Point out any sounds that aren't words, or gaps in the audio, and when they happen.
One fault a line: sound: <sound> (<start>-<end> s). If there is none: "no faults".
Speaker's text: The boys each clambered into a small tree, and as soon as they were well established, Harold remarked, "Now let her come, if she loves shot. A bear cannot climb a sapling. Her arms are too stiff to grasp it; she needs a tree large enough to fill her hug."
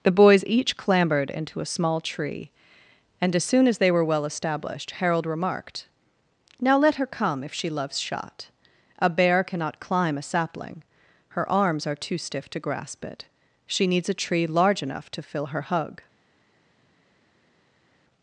no faults